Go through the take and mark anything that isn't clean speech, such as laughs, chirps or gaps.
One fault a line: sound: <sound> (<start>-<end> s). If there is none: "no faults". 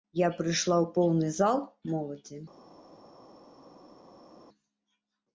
no faults